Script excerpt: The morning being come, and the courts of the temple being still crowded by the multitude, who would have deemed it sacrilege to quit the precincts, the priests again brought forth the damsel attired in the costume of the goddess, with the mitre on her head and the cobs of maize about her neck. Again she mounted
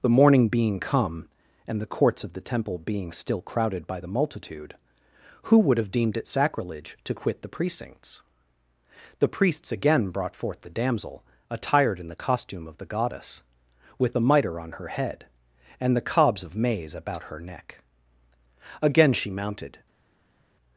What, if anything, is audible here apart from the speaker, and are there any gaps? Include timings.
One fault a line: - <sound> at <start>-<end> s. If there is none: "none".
none